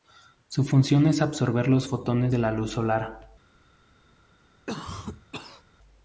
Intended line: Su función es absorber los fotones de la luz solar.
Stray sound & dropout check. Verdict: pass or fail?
fail